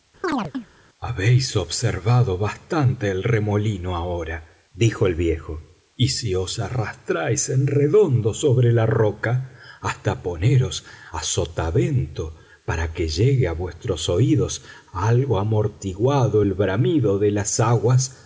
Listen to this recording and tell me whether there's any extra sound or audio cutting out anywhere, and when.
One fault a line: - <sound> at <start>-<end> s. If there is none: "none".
- chirp at 0.2-0.7 s